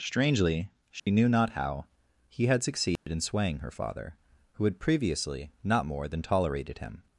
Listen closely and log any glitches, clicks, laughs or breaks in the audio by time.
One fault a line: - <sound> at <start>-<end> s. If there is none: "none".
- dropout at 1.0-1.1 s
- dropout at 3.0-3.1 s